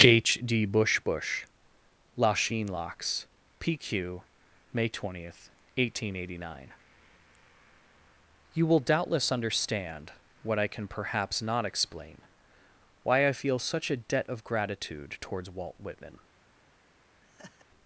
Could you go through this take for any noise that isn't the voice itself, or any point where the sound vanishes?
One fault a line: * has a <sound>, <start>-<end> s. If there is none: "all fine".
* has a laugh, 17.2-17.7 s